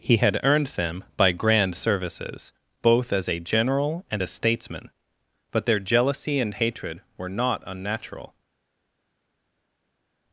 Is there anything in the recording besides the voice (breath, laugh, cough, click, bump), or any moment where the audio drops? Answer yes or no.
no